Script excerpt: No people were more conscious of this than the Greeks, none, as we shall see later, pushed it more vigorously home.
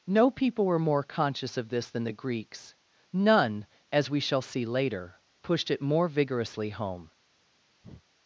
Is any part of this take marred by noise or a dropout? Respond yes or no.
yes